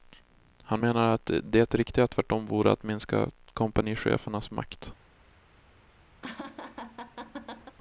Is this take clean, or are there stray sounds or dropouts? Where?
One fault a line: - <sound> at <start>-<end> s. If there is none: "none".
- laugh at 6.2-7.8 s